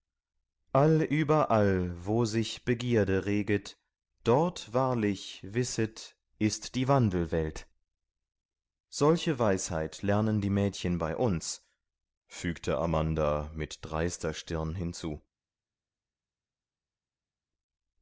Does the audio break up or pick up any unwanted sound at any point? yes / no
no